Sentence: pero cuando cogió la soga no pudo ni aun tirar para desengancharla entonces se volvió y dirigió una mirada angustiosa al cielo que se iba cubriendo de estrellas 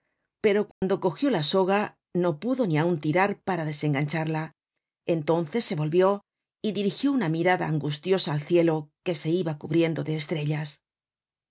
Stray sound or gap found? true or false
true